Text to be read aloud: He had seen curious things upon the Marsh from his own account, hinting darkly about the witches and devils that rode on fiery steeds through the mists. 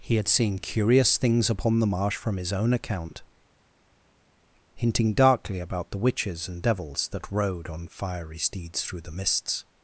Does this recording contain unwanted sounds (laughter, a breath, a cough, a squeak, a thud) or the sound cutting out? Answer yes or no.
no